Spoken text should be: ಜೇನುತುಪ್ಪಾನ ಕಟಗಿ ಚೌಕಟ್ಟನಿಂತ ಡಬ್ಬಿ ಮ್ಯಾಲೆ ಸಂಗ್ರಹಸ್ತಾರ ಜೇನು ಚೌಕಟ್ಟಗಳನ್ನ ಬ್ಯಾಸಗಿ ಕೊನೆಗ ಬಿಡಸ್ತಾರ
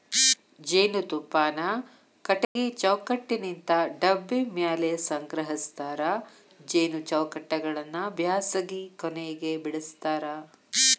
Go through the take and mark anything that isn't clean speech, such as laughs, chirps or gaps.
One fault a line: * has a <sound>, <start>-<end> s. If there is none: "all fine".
* has a dropout, 2.4-2.6 s